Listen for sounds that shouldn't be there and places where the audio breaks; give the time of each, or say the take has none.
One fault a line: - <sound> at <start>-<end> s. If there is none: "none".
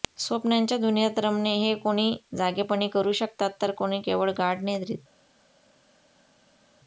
none